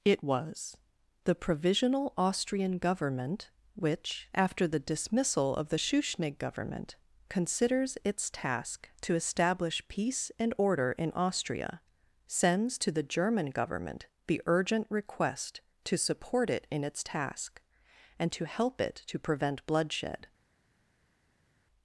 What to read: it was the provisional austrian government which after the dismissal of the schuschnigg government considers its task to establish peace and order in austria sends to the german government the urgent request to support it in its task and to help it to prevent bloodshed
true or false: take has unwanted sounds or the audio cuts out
false